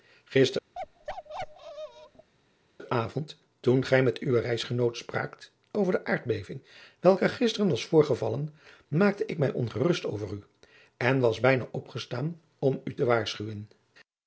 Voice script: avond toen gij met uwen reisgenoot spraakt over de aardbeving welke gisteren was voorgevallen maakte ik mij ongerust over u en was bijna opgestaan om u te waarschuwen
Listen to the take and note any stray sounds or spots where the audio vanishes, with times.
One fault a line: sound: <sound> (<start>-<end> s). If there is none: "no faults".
sound: bark (0.7-2.3 s)